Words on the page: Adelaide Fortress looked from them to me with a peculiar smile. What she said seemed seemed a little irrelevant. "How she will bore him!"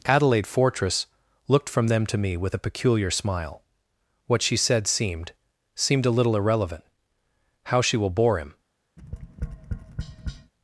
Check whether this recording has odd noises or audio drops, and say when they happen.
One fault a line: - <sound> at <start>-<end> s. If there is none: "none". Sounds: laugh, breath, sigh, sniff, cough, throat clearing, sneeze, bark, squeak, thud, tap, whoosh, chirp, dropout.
- tap at 9.0-10.5 s